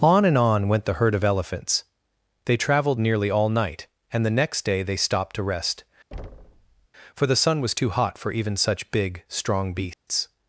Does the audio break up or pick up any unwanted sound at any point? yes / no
yes